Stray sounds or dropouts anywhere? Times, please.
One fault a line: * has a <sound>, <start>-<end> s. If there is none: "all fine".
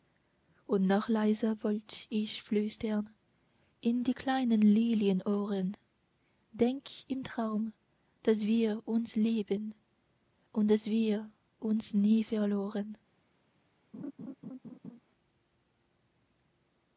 * has a laugh, 13.9-15.0 s